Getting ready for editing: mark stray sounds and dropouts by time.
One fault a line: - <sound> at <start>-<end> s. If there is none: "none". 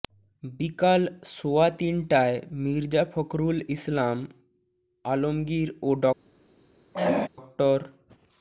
- throat clearing at 6.9-7.3 s